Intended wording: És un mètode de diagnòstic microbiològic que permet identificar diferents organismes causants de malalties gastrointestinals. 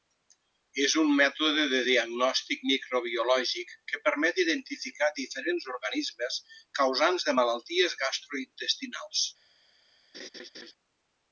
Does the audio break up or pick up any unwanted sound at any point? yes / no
yes